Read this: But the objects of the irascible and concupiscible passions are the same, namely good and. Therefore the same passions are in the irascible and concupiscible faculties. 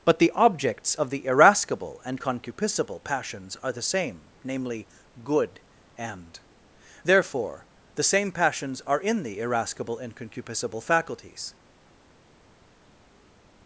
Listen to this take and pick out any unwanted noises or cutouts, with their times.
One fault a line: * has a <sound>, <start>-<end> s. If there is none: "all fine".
all fine